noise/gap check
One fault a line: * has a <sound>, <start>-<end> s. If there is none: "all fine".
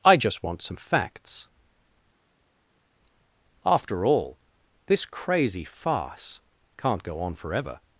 all fine